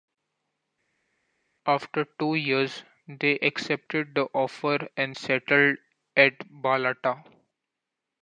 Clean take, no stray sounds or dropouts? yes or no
yes